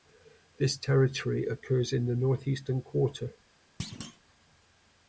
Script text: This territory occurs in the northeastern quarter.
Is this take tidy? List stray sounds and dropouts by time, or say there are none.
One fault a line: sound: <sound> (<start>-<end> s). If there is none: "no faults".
sound: thud (3.8-4.2 s)